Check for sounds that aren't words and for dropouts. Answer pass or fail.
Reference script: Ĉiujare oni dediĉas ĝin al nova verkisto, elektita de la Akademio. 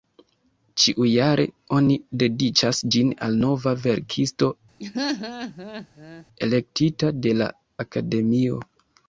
fail